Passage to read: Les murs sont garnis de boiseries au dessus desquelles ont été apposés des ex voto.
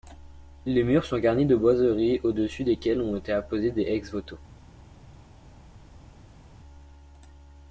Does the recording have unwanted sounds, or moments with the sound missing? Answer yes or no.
no